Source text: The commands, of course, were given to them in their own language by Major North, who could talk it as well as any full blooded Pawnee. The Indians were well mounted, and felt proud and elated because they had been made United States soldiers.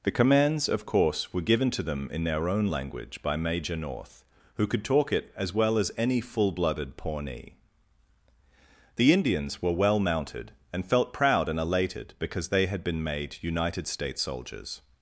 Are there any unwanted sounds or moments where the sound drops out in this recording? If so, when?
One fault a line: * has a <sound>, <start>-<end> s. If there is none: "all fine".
all fine